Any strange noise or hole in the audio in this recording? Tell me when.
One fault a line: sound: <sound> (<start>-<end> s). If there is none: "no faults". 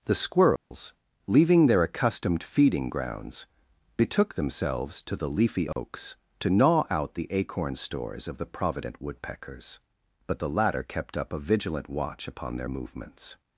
sound: dropout (0.6-0.7 s)
sound: dropout (5.7-5.8 s)